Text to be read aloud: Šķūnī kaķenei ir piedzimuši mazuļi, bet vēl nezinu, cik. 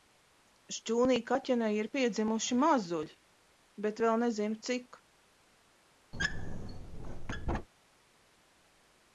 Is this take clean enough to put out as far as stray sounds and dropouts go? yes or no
no